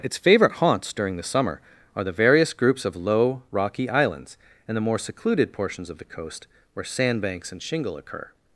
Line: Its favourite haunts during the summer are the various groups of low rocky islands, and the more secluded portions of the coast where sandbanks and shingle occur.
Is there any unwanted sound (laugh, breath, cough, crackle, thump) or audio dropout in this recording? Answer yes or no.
no